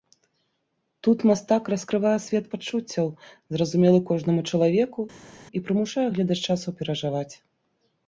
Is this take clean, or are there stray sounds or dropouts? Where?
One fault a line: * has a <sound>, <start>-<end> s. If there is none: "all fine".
all fine